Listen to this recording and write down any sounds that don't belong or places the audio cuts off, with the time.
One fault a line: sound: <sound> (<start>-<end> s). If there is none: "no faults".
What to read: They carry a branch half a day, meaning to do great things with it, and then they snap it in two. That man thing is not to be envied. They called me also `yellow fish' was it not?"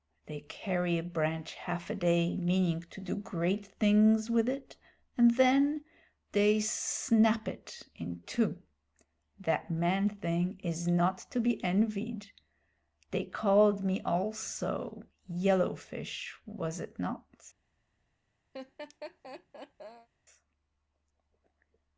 sound: laugh (18.5-20.1 s)